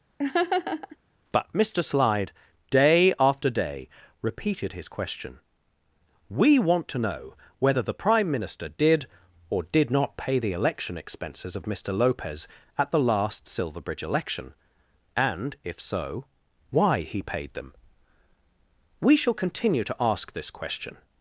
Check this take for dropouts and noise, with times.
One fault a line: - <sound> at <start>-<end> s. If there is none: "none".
- laugh at 0.2-1.0 s